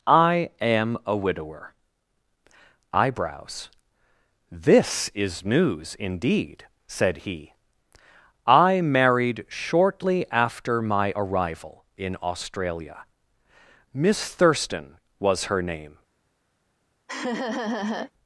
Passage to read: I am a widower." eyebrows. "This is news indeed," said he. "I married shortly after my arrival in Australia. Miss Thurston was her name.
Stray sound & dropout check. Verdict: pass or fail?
fail